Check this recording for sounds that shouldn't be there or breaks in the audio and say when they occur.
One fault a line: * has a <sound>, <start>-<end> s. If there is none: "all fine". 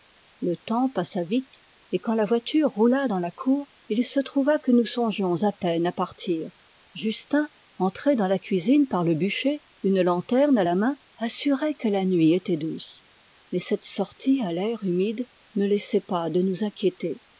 all fine